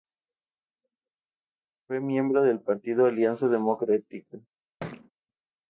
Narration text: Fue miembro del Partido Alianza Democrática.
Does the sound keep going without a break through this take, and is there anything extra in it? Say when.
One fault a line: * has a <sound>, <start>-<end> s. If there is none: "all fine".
* has a thud, 4.8-5.1 s